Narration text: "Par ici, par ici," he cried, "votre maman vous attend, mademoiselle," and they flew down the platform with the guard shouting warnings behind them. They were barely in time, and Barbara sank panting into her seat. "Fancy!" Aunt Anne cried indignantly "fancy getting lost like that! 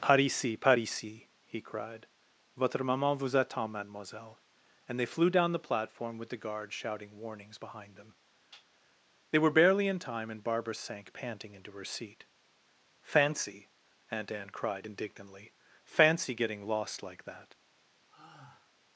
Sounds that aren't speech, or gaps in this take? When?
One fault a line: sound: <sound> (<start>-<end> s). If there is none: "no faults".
sound: sigh (18.1-18.7 s)